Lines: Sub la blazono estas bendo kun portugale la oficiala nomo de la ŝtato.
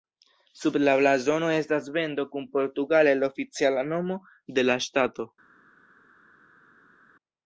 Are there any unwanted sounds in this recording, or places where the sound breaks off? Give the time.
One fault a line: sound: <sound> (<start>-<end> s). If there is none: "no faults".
no faults